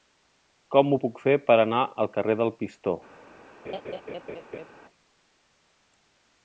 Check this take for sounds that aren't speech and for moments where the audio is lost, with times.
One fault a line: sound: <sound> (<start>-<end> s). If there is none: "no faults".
sound: laugh (3.6-4.7 s)